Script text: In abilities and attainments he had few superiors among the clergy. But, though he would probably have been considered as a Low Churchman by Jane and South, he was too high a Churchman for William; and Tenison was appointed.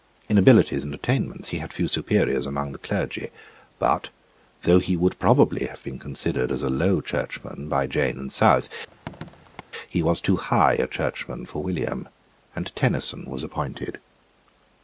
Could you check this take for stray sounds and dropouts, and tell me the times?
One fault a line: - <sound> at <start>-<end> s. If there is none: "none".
- squeak at 8.9-9.6 s